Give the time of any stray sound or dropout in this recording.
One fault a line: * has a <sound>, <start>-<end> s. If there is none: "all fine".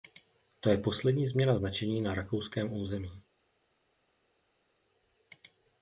all fine